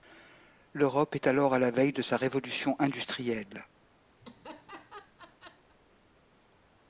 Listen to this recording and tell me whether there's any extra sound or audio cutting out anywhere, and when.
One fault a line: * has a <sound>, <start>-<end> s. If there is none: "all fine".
* has a laugh, 4.2-5.8 s